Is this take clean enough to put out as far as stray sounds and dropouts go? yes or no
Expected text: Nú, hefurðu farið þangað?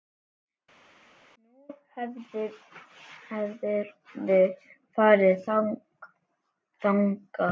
yes